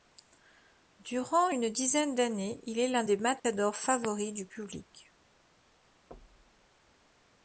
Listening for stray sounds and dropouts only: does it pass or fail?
fail